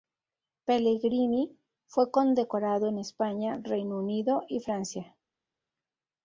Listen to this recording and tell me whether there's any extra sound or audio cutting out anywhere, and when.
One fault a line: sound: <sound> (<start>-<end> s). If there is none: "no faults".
no faults